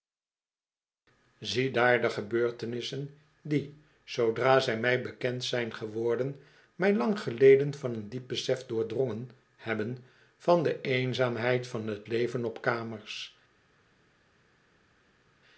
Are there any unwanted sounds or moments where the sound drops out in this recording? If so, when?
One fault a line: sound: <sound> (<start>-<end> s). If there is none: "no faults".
no faults